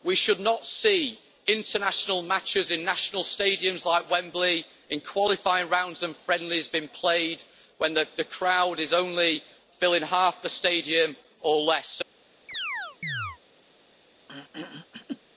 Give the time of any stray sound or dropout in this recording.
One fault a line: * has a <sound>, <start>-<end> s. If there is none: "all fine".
* has a chirp, 12.5-13.4 s
* has a throat clearing, 14.3-15.2 s